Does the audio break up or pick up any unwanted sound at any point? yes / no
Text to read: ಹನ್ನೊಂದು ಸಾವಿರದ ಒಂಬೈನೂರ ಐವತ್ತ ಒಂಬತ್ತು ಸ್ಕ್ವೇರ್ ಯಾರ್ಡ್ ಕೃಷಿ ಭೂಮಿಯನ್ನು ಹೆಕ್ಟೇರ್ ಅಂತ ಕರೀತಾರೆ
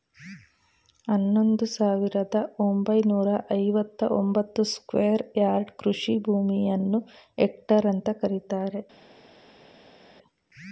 no